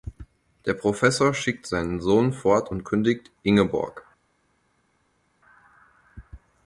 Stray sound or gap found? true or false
false